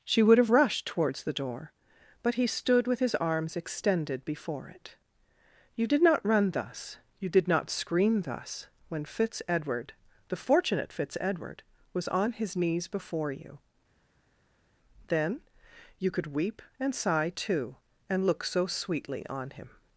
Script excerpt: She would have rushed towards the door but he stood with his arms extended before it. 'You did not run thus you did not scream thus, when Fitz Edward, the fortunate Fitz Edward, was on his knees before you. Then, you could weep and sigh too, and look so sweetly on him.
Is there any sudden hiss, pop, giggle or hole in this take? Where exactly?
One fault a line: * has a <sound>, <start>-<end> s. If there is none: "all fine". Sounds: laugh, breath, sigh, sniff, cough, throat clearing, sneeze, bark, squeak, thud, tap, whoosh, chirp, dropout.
all fine